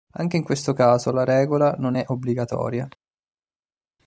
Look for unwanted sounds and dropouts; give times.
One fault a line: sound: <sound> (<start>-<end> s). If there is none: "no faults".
no faults